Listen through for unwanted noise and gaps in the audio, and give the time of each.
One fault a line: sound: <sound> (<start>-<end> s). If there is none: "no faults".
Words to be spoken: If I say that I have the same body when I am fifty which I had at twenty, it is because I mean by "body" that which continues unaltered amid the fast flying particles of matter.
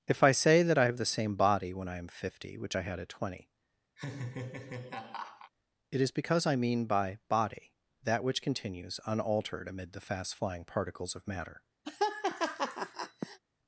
sound: laugh (4.0-5.5 s)
sound: laugh (11.8-13.4 s)